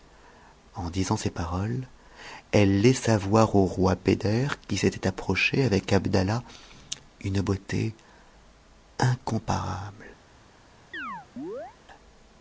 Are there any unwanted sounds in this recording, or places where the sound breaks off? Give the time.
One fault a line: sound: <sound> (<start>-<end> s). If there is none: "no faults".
sound: chirp (10.9-11.8 s)